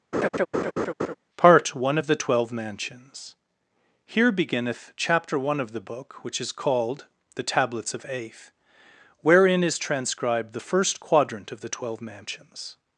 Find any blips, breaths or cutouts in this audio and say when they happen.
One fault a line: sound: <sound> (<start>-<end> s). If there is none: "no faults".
sound: laugh (0.1-1.1 s)